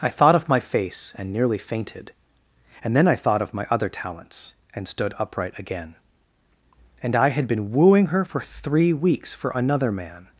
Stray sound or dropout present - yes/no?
no